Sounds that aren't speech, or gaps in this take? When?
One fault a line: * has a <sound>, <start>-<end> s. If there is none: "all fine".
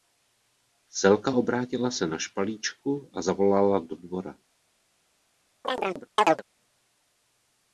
* has a chirp, 5.6-6.4 s